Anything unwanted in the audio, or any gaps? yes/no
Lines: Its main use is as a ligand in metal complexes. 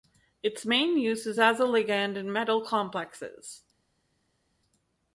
no